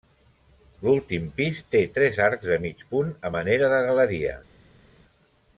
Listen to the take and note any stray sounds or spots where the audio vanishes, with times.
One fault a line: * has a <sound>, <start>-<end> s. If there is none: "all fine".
all fine